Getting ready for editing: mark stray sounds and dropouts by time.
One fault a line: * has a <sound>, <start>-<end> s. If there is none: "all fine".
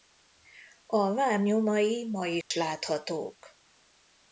* has a dropout, 2.4-2.5 s